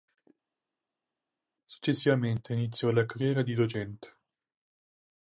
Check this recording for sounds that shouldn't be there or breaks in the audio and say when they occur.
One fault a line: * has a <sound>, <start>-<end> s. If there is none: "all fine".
all fine